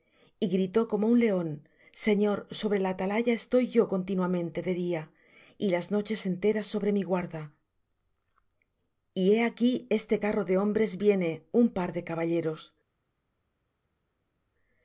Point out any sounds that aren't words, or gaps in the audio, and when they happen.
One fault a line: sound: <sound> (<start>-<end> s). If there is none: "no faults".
no faults